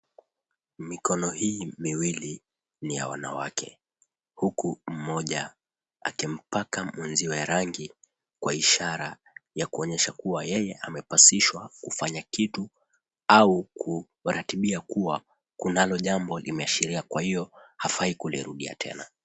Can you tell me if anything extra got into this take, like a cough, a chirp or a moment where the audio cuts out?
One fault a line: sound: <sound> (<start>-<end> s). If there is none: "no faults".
no faults